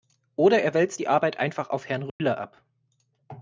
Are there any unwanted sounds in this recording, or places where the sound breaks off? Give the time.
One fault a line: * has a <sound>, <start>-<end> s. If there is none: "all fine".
* has a dropout, 2.1-2.2 s